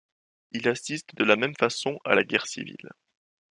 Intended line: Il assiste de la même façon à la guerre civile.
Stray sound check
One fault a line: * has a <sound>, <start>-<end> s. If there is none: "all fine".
all fine